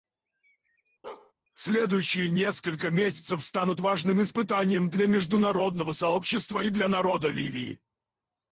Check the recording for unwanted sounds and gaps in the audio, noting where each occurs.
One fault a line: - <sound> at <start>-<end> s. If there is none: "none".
- bark at 1.0-1.3 s